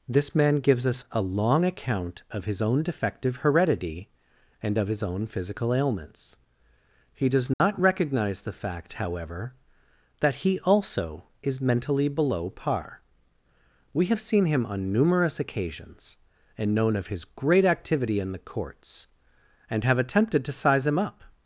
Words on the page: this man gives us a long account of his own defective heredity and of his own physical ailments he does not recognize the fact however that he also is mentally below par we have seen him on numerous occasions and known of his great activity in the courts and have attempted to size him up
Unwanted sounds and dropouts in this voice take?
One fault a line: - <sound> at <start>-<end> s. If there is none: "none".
- dropout at 7.5-7.6 s